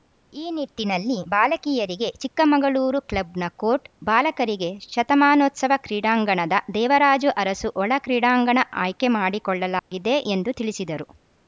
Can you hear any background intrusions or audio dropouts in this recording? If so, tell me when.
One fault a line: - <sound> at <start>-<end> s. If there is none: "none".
- dropout at 9.8-9.9 s